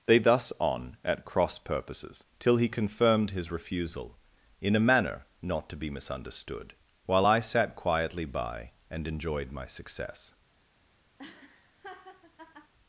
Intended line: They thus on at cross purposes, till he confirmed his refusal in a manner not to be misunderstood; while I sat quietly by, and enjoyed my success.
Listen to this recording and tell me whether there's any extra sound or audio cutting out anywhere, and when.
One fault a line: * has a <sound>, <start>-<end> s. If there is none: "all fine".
* has a laugh, 11.2-12.7 s